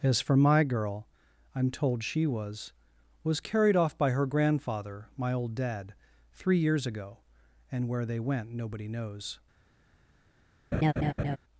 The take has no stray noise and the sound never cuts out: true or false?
false